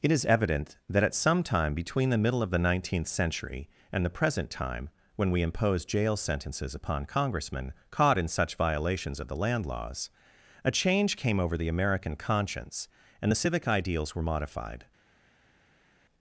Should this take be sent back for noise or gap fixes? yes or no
no